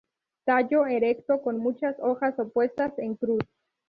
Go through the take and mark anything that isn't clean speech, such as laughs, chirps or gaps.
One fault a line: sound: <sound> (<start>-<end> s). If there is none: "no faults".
no faults